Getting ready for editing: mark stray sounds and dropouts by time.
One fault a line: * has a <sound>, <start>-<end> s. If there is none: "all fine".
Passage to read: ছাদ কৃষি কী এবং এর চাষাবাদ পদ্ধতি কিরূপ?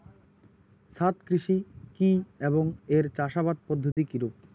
* has a dropout, 3.9-4.0 s